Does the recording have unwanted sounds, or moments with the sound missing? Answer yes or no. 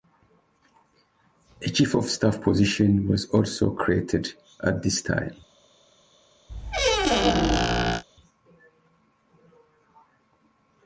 yes